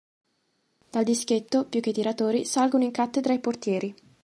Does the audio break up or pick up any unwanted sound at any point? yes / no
no